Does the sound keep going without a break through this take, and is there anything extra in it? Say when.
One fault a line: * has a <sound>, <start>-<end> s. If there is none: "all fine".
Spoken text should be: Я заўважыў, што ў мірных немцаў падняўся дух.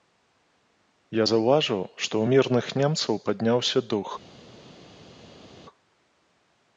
all fine